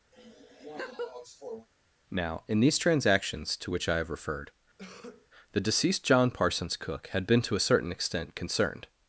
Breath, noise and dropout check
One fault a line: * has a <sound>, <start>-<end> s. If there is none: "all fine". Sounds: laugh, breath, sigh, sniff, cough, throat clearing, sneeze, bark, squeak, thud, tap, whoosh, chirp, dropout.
* has a laugh, 0.1-1.7 s
* has a cough, 4.8-5.3 s